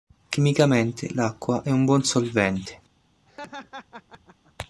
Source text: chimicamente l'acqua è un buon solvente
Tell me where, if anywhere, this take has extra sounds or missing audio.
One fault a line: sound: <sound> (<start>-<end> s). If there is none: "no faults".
sound: laugh (3.3-4.5 s)